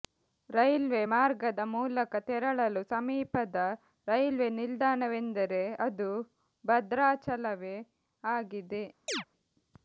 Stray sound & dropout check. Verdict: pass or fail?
fail